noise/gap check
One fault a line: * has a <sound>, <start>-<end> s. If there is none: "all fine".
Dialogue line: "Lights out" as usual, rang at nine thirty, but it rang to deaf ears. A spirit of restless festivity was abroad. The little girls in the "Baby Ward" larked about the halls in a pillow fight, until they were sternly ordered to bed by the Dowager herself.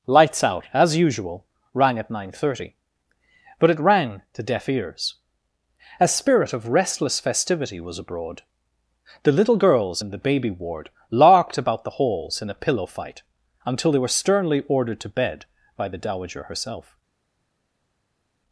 all fine